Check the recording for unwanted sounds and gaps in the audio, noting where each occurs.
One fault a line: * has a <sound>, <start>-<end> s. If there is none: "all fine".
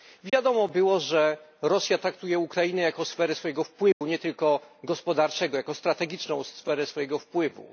* has a dropout, 0.3-0.3 s
* has a dropout, 3.9-4.0 s